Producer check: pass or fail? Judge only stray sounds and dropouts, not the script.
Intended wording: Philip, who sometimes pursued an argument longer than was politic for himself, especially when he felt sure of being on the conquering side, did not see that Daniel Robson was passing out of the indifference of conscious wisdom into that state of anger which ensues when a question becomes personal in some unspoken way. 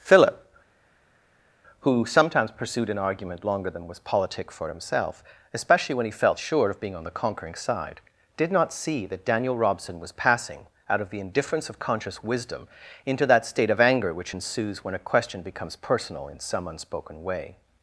pass